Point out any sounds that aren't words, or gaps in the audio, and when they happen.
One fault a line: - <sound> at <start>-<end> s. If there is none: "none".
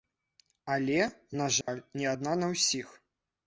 - dropout at 1.6-1.7 s